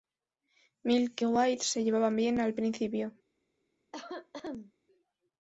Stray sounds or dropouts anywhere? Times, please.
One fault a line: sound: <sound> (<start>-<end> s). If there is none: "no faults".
sound: cough (3.9-4.7 s)